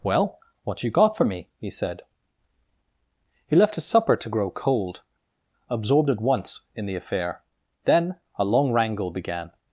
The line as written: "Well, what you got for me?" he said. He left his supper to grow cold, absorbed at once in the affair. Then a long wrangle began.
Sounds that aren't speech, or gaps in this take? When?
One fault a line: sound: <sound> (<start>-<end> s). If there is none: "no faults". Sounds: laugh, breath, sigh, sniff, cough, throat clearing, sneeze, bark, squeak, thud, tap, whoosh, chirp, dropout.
no faults